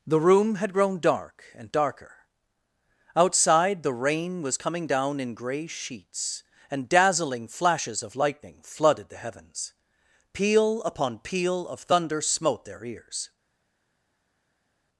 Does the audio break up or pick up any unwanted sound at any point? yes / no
no